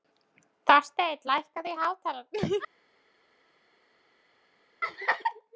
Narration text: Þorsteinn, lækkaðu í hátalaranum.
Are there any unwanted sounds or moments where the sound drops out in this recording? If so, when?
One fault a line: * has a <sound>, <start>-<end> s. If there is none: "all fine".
all fine